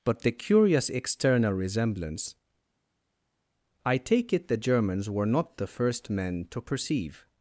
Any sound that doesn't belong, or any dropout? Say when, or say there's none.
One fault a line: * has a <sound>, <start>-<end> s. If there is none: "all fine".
all fine